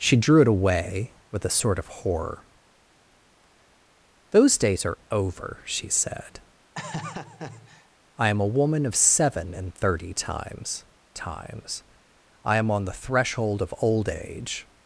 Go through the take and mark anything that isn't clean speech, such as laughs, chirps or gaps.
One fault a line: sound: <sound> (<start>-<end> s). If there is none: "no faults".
sound: laugh (6.7-7.9 s)